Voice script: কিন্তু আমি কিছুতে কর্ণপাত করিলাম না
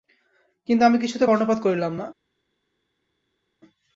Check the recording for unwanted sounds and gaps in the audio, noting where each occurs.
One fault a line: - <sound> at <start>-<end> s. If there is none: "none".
none